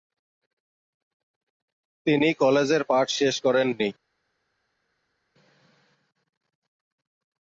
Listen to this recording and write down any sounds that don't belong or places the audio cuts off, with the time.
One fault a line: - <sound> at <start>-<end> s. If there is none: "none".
none